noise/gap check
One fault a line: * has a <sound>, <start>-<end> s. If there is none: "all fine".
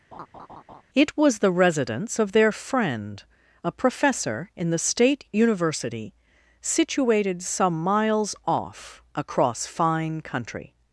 * has a laugh, 0.1-0.8 s